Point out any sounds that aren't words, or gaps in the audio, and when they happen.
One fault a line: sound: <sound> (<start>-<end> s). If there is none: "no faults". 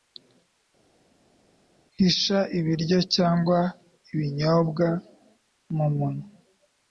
no faults